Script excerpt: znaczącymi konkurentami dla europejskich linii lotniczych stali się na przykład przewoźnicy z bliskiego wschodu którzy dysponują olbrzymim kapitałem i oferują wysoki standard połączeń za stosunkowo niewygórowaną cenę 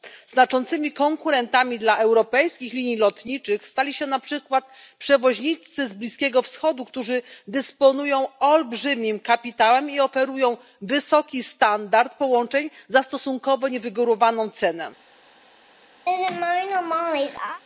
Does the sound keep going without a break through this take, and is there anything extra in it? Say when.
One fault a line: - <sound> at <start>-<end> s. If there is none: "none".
- laugh at 16.1-17.6 s